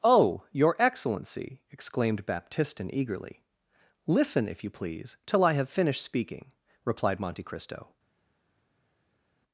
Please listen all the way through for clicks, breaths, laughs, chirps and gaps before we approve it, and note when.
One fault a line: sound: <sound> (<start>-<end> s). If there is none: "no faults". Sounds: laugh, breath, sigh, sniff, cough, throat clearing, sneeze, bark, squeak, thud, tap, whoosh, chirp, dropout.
no faults